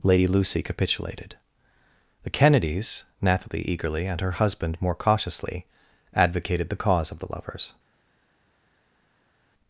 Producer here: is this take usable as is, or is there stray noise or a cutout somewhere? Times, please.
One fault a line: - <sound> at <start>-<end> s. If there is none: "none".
none